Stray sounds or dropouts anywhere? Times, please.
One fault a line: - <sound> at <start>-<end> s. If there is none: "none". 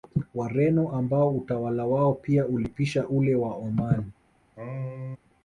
- sneeze at 4.6-5.2 s